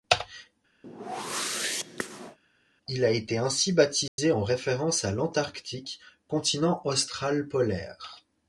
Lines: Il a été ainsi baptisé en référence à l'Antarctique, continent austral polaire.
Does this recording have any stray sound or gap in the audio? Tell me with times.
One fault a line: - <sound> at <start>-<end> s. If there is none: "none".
- whoosh at 0.8-2.4 s
- dropout at 4.1-4.2 s